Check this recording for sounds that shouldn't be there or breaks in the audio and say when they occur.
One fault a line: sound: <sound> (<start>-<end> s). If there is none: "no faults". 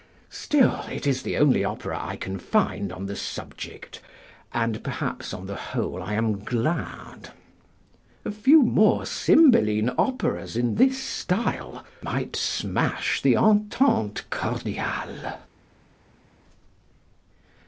no faults